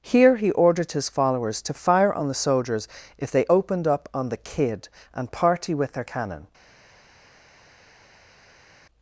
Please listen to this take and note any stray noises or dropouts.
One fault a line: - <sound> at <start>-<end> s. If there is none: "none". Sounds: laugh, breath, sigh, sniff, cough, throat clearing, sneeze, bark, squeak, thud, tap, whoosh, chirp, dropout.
none